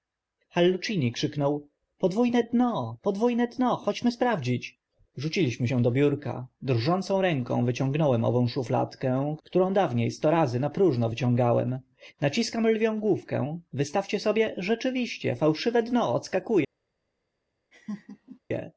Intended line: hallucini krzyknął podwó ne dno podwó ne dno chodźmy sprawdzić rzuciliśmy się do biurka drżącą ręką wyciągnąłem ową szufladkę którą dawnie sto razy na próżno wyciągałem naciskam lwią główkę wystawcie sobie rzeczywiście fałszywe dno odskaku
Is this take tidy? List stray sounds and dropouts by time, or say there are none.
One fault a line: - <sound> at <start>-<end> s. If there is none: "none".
- laugh at 17.7-18.4 s